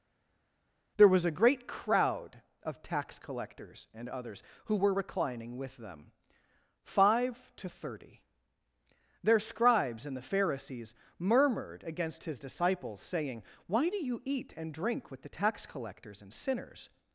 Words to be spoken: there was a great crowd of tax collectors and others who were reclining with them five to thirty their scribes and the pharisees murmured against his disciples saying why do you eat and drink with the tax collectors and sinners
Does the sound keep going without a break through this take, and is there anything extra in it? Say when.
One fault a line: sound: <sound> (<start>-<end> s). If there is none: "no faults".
no faults